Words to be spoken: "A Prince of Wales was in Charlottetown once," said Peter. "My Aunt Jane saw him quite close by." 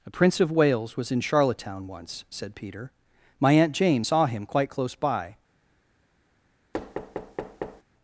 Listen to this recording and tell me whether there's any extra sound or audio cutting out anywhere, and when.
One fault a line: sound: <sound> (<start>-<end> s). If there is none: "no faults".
sound: thud (6.7-7.8 s)